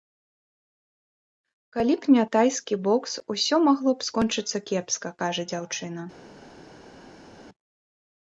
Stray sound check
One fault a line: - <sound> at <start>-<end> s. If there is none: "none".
none